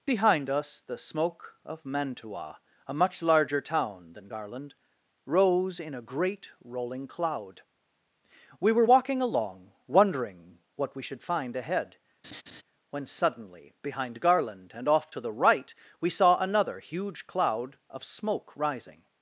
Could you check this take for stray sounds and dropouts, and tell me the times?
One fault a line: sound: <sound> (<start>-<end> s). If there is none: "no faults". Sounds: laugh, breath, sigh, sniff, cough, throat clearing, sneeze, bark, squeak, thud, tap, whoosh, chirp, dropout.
sound: laugh (12.2-12.6 s)